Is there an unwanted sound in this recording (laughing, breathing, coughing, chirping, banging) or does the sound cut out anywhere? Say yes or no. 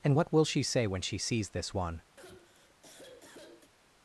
yes